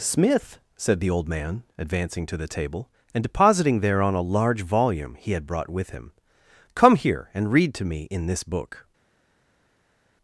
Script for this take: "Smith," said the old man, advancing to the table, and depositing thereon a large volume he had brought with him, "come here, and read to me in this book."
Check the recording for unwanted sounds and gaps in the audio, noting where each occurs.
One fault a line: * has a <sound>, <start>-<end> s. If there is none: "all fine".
all fine